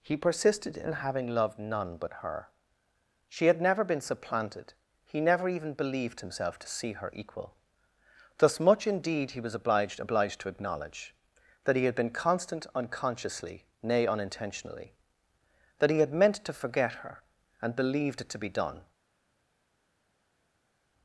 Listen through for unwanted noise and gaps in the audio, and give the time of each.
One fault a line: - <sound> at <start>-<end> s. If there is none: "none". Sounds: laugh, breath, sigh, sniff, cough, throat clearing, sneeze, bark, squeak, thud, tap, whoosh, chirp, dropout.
none